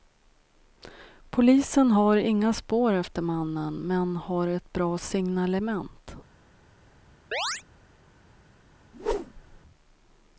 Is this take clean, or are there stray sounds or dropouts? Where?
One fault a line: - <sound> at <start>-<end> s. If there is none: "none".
- chirp at 7.3-7.6 s
- whoosh at 8.9-9.6 s